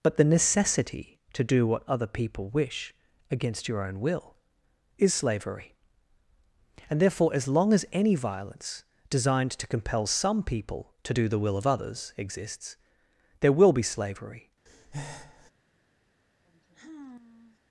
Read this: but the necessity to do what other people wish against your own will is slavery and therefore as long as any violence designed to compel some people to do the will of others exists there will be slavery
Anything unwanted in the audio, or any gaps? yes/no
yes